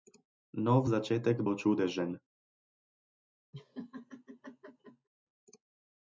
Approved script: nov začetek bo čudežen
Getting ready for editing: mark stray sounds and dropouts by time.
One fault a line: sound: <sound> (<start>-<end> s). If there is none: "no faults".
sound: laugh (3.5-5.1 s)